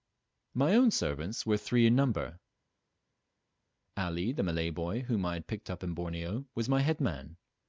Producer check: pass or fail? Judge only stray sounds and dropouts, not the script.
pass